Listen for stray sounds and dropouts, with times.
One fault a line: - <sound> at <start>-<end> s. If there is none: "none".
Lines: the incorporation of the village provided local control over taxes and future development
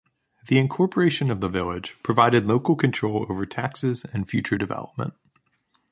none